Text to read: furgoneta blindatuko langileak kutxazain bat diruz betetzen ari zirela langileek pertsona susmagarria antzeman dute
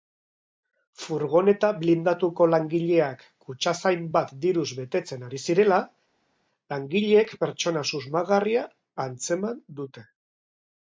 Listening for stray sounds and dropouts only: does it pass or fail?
pass